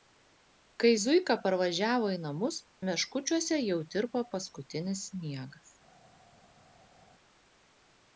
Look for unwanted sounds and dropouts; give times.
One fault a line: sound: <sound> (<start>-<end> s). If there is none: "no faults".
no faults